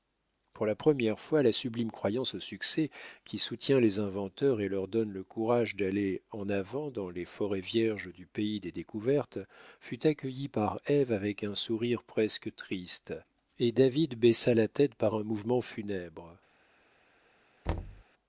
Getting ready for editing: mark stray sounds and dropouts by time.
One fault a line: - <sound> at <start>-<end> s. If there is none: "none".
- thud at 17.7-18.0 s